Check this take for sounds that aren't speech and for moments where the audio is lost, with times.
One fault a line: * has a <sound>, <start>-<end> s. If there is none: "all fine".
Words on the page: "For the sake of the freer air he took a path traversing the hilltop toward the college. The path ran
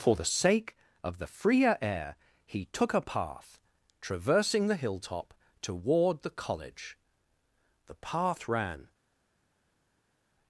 all fine